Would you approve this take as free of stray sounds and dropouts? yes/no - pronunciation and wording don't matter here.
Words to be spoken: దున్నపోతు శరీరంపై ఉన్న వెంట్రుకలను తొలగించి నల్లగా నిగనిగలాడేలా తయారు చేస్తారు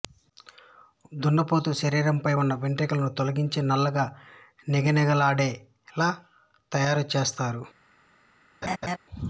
no